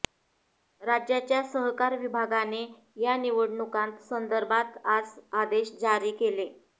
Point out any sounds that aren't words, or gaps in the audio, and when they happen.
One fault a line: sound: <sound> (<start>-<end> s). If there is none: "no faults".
no faults